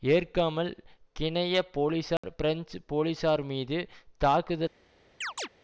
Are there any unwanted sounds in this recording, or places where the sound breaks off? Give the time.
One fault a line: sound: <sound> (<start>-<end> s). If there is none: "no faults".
sound: dropout (2.2-2.2 s)
sound: chirp (5.2-5.5 s)